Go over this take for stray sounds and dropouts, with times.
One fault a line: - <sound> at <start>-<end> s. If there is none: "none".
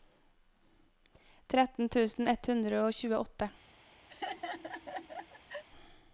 - laugh at 4.1-5.6 s